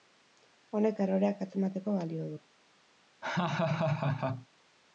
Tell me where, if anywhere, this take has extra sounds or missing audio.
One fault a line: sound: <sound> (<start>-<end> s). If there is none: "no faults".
sound: laugh (3.2-4.5 s)